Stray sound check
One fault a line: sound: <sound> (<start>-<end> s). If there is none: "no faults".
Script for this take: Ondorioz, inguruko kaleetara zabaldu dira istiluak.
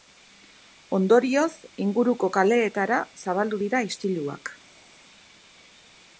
no faults